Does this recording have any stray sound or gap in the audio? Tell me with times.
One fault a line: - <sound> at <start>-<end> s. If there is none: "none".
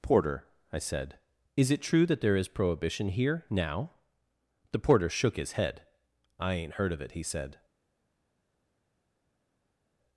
none